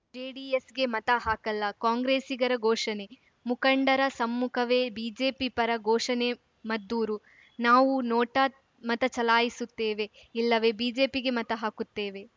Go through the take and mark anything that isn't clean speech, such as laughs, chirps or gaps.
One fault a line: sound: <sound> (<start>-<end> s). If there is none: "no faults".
no faults